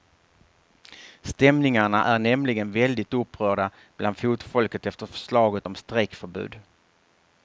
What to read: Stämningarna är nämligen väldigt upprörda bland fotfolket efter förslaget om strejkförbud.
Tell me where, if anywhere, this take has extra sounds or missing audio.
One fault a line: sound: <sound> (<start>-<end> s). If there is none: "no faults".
no faults